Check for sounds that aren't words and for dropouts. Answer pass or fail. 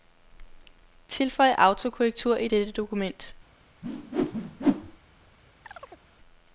fail